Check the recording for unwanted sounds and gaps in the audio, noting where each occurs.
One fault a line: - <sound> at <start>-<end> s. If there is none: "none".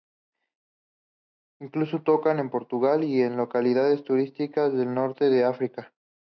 none